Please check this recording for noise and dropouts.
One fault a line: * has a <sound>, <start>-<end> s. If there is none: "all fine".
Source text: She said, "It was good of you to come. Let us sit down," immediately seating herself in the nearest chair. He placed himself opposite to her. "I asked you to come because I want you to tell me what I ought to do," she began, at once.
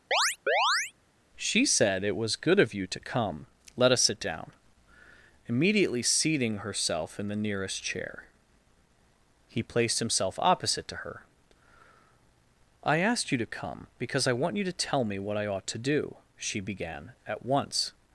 * has a chirp, 0.1-0.9 s